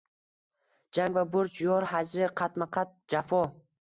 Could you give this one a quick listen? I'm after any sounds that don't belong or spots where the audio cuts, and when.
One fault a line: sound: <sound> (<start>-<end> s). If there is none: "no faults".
no faults